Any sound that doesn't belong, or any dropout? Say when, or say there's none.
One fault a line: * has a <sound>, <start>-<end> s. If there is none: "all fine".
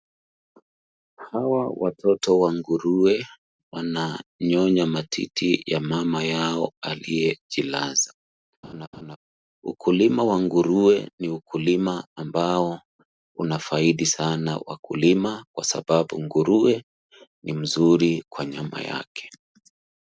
* has a laugh, 8.6-9.2 s